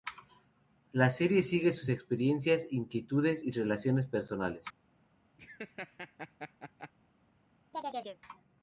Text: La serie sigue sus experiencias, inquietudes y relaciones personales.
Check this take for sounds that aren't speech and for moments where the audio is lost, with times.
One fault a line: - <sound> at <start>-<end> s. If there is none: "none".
- laugh at 5.4-6.9 s
- chirp at 7.7-8.2 s